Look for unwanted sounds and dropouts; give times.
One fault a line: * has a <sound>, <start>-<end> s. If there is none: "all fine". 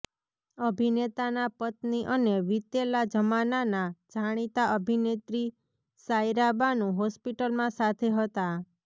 all fine